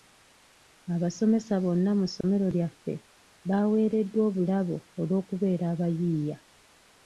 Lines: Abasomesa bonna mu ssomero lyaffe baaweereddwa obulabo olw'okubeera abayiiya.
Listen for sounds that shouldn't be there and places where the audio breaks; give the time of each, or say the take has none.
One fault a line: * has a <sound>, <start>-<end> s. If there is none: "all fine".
* has a dropout, 2.2-2.2 s